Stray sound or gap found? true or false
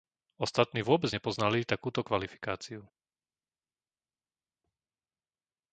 false